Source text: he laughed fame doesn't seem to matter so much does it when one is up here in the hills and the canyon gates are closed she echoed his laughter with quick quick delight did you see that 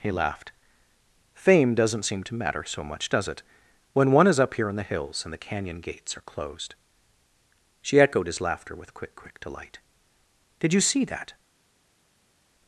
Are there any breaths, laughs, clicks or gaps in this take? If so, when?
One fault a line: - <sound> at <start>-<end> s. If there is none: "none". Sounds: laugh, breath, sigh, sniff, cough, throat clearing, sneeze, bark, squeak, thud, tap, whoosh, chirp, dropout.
none